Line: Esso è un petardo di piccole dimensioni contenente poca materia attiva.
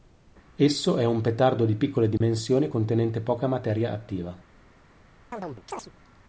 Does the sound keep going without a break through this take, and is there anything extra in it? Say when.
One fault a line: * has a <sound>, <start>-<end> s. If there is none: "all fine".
* has a dropout, 2.2-2.2 s
* has a chirp, 5.3-5.9 s